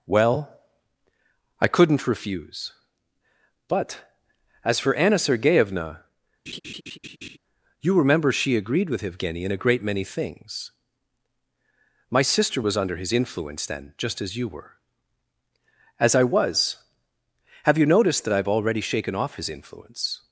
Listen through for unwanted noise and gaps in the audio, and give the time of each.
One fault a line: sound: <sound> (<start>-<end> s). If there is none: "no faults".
sound: laugh (6.5-7.4 s)